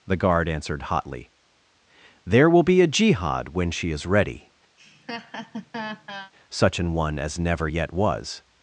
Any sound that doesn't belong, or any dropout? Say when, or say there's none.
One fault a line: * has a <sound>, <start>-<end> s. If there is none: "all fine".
* has a laugh, 4.8-6.3 s